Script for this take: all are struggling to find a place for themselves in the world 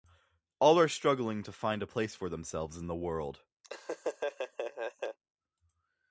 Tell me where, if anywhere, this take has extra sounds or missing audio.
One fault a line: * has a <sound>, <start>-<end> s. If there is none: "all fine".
* has a laugh, 3.6-5.2 s